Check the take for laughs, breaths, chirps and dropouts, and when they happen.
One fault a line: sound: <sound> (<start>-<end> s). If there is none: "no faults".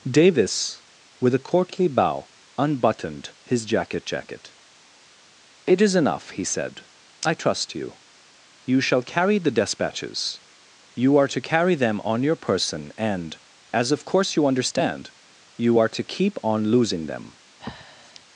sound: breath (17.6-18.2 s)